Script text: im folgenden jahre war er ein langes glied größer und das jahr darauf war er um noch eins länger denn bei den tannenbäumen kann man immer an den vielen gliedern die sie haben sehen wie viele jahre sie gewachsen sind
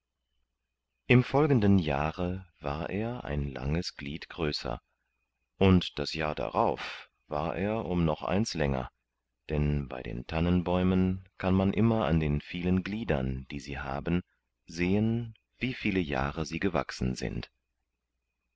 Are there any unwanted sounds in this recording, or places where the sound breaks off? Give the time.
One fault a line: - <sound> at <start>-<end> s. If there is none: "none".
none